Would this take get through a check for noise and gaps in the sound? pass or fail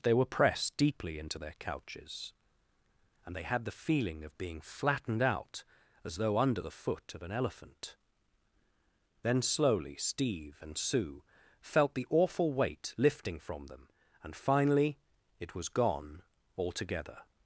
pass